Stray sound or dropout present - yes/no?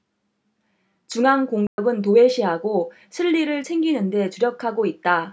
yes